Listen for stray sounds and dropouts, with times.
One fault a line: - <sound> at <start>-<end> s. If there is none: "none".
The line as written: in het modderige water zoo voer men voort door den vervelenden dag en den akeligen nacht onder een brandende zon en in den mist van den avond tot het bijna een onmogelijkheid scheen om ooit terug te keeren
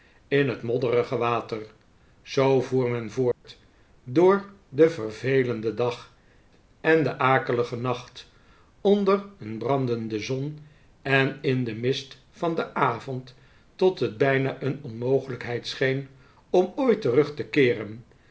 - dropout at 3.3-3.4 s